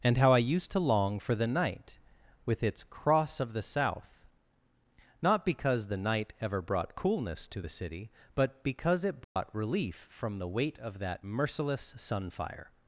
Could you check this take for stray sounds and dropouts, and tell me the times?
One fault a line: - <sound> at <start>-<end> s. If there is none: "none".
- dropout at 9.2-9.4 s